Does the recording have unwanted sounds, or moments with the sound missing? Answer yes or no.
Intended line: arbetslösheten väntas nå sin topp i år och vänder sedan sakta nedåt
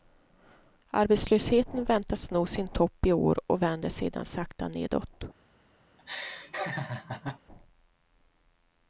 yes